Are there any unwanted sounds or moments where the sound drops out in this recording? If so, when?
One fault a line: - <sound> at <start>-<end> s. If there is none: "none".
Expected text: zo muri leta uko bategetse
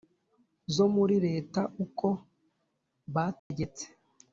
- dropout at 3.4-3.5 s